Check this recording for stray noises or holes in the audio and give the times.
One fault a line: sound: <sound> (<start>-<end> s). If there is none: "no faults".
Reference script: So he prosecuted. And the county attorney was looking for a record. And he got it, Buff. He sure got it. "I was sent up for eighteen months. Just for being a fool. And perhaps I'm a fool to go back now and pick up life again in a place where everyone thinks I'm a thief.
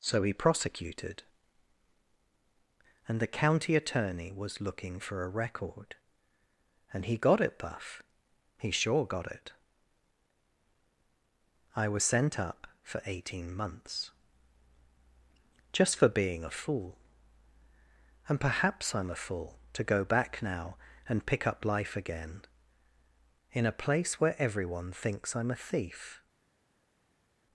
no faults